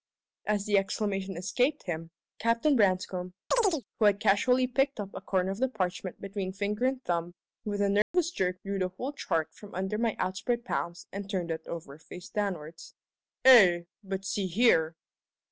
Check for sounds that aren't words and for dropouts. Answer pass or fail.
fail